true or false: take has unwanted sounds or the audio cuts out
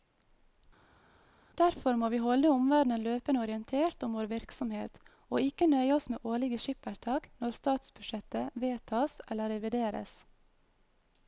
false